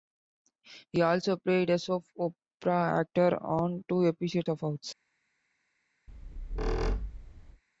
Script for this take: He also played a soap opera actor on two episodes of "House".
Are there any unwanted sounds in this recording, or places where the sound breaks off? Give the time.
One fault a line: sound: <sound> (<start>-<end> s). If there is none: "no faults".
sound: squeak (6.1-7.6 s)